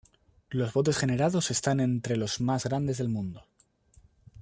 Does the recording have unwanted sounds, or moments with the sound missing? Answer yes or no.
no